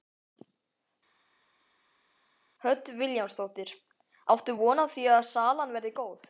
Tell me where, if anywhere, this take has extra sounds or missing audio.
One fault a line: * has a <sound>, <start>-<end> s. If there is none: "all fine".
all fine